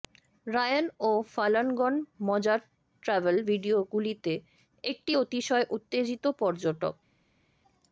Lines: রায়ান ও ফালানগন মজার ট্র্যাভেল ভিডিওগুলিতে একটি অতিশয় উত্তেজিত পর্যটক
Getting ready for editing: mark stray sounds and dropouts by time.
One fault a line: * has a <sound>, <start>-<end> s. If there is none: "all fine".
all fine